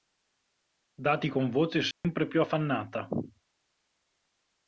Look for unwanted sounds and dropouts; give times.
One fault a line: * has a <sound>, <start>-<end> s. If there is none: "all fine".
* has a dropout, 1.9-2.0 s